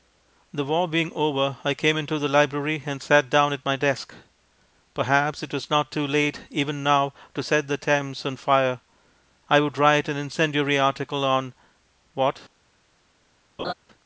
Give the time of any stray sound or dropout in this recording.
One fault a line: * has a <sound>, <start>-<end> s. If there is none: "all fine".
* has a laugh, 13.6-13.7 s